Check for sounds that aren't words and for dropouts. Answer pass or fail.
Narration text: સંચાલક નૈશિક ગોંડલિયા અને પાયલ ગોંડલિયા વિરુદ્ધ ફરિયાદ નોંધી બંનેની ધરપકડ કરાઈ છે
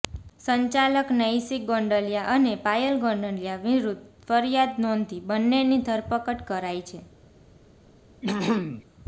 fail